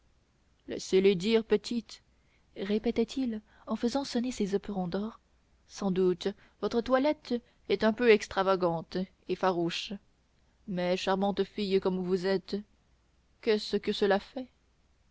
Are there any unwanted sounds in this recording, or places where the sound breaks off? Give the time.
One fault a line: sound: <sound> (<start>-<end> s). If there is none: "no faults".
no faults